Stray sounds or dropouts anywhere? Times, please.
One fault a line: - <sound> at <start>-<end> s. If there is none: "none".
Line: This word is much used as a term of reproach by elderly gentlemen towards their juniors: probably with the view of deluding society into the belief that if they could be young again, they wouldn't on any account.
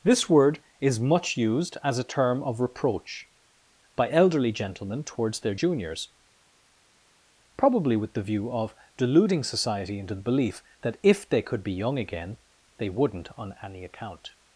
none